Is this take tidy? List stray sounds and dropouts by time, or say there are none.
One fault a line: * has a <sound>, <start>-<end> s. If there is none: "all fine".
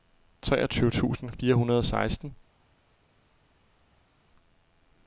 all fine